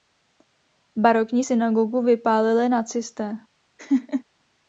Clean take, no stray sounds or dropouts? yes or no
no